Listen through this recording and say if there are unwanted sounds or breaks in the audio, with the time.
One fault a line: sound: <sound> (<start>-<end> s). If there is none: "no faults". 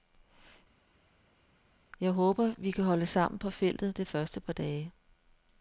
no faults